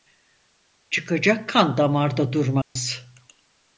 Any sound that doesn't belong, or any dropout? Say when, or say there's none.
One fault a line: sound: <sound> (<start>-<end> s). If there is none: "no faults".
sound: dropout (2.6-2.8 s)